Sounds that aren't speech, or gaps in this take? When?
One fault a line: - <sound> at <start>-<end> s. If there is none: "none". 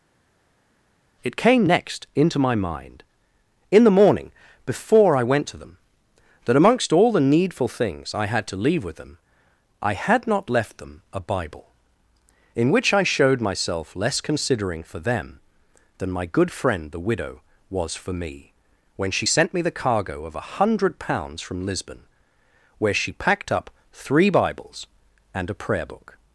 none